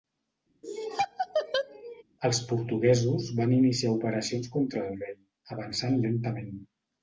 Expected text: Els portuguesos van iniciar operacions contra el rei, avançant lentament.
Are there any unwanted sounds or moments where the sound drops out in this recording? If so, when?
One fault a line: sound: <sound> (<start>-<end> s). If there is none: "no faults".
sound: laugh (0.6-2.0 s)